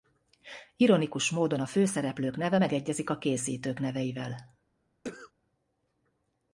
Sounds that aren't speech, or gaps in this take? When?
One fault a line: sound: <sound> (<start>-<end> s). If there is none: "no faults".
sound: cough (5.0-5.3 s)